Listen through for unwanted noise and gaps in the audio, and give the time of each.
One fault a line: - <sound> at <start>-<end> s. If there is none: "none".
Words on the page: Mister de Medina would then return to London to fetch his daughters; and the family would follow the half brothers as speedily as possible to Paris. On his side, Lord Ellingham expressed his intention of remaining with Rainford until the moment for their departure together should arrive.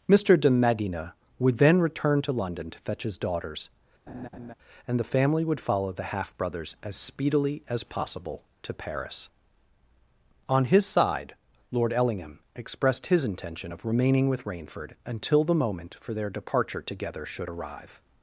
- laugh at 4.1-4.5 s